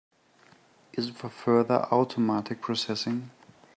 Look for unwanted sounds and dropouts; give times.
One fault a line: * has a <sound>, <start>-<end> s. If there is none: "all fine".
all fine